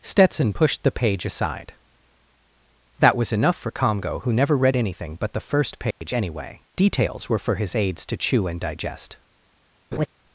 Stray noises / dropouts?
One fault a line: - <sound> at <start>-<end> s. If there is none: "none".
- dropout at 5.9-6.0 s
- laugh at 9.9-10.1 s